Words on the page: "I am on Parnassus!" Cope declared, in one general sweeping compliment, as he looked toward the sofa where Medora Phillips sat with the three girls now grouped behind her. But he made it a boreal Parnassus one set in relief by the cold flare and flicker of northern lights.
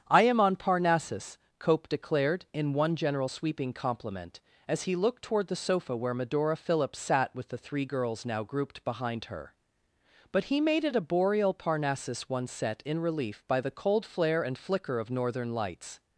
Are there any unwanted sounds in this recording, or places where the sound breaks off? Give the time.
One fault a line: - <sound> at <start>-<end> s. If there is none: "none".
none